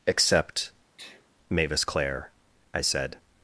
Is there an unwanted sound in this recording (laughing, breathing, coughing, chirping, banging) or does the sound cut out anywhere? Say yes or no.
yes